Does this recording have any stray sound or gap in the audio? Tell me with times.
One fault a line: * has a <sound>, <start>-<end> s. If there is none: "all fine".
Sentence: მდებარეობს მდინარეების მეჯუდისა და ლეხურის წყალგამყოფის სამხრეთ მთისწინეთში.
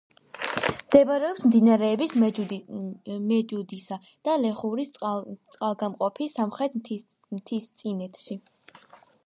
all fine